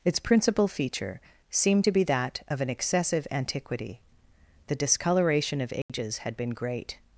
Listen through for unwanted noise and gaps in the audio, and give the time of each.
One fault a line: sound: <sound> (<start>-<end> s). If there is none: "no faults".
sound: dropout (5.8-5.9 s)